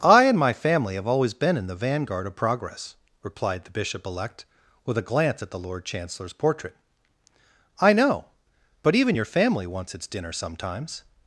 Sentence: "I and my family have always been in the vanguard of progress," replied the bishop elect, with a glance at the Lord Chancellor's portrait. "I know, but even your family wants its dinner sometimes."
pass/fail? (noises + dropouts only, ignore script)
pass